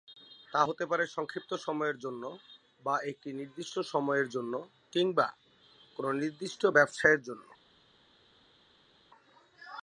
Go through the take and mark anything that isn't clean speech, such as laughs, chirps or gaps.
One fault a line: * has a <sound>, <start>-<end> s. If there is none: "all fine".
all fine